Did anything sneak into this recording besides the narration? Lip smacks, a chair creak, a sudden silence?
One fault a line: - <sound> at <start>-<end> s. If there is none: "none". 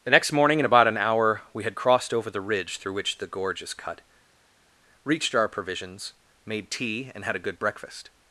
none